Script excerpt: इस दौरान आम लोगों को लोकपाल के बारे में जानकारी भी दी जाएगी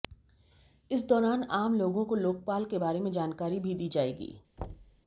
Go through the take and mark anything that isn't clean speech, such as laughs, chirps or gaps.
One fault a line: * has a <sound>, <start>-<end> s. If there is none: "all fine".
* has a thud, 4.6-5.0 s